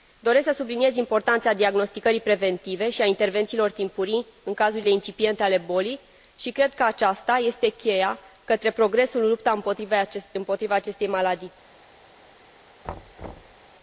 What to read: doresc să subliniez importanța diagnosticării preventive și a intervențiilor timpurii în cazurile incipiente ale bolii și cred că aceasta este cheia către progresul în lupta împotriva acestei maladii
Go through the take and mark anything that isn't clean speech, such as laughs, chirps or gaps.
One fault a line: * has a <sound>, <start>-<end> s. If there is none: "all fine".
* has a thud, 12.8-13.6 s